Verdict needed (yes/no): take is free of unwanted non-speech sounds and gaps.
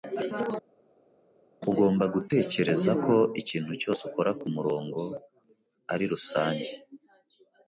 yes